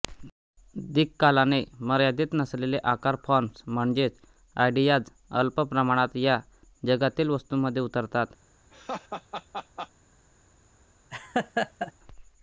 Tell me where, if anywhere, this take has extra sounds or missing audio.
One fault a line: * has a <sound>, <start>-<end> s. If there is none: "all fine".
* has a laugh, 8.7-9.9 s
* has a laugh, 11.1-11.9 s